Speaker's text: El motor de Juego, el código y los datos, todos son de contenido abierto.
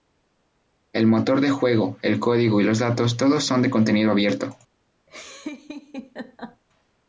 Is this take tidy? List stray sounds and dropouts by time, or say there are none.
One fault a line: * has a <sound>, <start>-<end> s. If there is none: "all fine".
* has a laugh, 5.1-6.6 s